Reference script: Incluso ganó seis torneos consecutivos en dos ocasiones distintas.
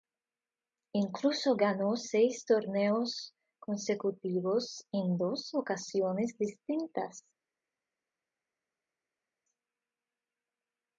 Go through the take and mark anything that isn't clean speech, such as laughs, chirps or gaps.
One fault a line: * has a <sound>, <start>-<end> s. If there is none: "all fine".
all fine